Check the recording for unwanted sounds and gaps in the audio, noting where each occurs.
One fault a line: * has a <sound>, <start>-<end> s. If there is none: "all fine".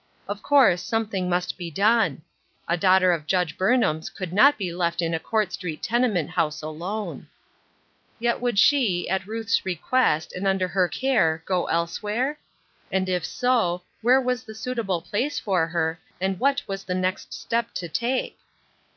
all fine